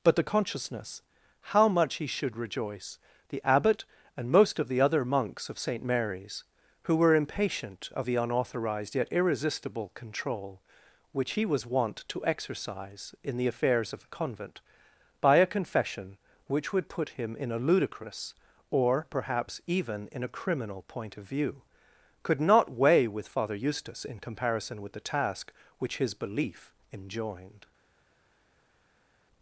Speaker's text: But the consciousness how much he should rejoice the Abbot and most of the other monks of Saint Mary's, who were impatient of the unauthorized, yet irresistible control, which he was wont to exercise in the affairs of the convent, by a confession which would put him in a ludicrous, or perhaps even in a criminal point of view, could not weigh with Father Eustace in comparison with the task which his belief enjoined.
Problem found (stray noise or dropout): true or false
false